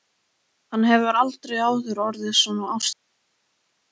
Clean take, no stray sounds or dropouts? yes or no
yes